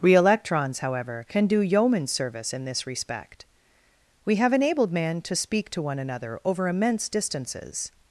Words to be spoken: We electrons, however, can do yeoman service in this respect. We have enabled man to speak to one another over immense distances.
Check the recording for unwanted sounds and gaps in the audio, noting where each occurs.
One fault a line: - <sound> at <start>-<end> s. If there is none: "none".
none